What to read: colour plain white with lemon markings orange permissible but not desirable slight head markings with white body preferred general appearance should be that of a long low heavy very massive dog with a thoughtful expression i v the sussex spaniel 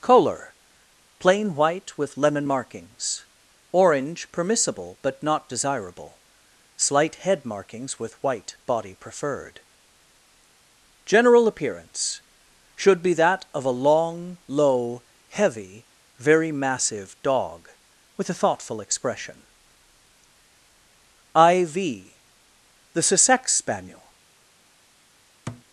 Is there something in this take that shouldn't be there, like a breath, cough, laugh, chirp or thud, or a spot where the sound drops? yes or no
yes